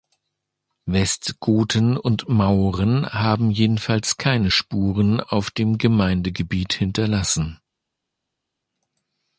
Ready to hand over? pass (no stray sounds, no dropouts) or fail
pass